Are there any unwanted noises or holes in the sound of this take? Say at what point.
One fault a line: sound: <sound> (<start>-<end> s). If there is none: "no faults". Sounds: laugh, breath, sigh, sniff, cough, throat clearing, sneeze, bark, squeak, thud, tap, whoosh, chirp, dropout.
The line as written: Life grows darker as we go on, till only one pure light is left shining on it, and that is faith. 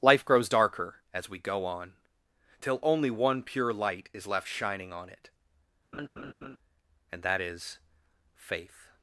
sound: laugh (5.9-6.6 s)